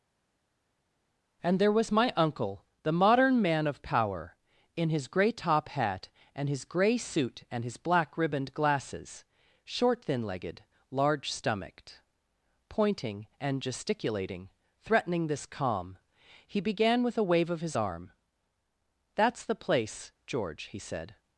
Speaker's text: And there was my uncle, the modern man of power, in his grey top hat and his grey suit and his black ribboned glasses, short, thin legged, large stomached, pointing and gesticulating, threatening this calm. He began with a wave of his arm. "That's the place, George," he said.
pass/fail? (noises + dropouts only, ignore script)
pass